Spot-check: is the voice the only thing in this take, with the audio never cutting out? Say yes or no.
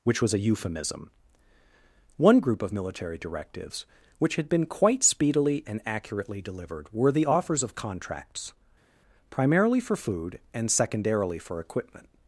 yes